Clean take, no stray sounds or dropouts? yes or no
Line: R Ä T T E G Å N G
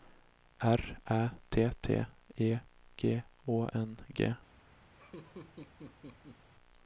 no